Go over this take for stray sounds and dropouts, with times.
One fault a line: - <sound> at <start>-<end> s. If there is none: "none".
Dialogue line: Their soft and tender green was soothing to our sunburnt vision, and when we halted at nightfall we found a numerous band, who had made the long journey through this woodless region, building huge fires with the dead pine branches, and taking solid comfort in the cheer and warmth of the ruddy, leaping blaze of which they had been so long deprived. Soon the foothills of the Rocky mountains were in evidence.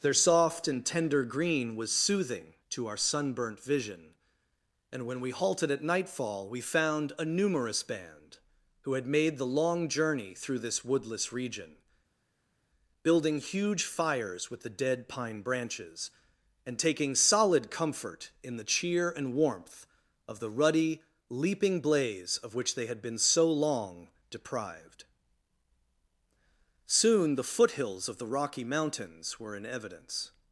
none